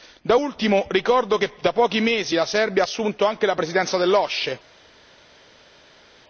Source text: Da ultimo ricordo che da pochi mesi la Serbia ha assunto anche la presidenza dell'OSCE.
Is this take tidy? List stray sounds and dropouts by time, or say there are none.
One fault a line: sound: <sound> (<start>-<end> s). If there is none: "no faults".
no faults